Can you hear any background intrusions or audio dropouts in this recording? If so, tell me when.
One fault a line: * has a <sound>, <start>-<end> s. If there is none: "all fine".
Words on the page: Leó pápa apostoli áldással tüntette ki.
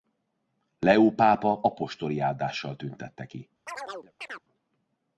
* has a chirp, 3.7-4.4 s